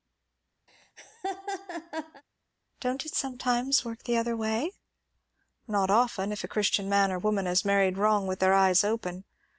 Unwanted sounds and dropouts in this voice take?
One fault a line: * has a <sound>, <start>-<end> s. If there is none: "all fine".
* has a laugh, 0.7-2.2 s